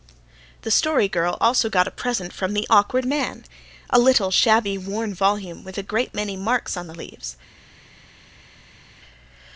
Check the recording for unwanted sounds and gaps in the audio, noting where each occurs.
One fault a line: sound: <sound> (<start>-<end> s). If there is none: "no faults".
no faults